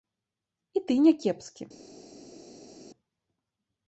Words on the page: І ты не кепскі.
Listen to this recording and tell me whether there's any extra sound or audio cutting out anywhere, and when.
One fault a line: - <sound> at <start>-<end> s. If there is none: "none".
none